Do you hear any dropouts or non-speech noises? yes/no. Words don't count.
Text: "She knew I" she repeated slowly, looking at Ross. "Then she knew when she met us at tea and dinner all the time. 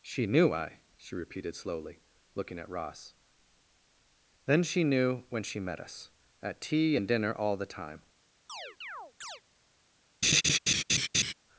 yes